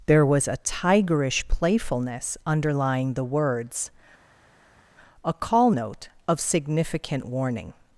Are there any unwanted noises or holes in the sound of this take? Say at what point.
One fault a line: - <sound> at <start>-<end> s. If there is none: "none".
none